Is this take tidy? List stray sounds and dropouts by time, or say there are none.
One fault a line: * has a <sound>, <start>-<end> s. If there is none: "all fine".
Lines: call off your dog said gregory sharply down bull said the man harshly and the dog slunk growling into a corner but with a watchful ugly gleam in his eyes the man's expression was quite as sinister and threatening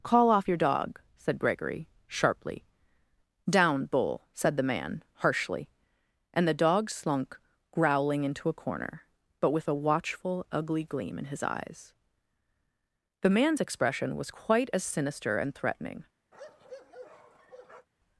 * has a bark, 16.3-17.9 s